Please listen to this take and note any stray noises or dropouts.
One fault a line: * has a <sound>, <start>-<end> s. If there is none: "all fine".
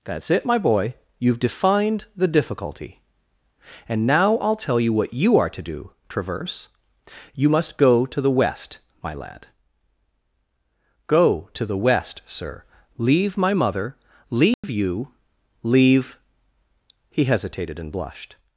* has a dropout, 14.5-14.6 s